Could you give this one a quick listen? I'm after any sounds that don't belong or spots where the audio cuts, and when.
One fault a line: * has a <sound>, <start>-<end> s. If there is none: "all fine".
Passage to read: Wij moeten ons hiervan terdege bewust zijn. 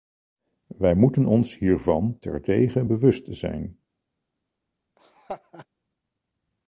* has a laugh, 5.0-5.7 s